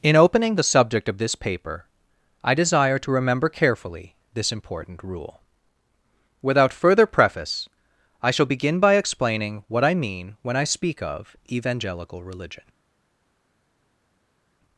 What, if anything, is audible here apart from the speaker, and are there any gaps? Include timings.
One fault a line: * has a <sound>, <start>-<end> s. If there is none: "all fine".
all fine